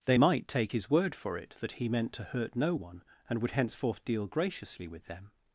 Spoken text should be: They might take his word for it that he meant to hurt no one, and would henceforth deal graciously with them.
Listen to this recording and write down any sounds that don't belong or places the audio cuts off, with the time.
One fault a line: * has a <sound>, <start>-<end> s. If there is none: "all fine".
all fine